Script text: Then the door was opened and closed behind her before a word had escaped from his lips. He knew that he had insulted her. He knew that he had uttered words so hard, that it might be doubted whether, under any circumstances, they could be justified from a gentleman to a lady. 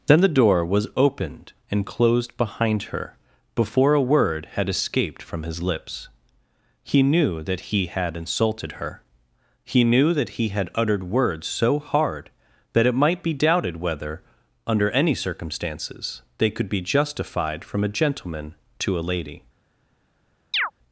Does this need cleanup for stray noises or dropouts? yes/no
yes